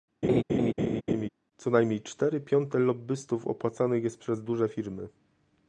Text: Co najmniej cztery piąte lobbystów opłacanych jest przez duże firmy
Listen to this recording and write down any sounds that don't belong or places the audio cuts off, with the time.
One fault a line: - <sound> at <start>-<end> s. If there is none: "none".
- laugh at 0.2-1.3 s